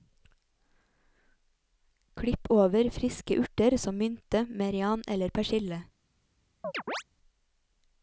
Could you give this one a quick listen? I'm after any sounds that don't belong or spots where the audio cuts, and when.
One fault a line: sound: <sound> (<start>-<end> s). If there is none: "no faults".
sound: chirp (6.6-7.0 s)